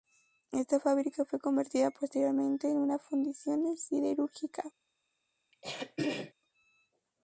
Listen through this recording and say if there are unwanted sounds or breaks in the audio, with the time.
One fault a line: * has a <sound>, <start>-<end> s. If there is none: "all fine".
* has a throat clearing, 5.5-6.3 s